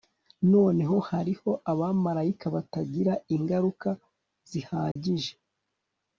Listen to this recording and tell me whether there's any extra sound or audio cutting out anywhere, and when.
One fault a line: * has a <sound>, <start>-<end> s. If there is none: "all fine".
* has a dropout, 4.9-5.0 s